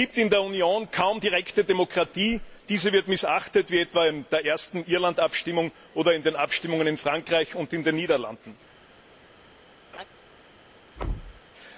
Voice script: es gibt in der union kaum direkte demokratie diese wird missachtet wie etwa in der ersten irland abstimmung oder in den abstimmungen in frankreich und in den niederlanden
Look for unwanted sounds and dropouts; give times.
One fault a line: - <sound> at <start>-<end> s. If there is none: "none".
- laugh at 9.9-10.0 s
- thud at 11.0-11.4 s